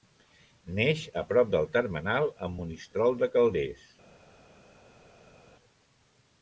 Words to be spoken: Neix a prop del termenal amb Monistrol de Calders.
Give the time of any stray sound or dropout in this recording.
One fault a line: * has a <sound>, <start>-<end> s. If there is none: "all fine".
all fine